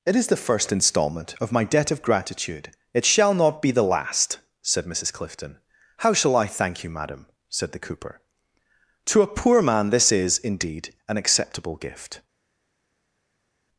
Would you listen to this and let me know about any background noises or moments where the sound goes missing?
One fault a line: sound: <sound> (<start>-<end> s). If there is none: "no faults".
no faults